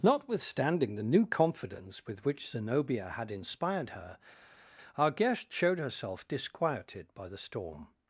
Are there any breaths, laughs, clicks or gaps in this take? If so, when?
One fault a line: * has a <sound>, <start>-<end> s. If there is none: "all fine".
all fine